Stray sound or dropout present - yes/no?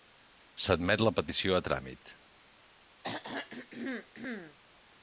yes